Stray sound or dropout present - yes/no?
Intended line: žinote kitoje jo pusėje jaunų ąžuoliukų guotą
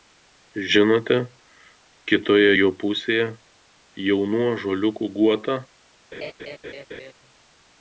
yes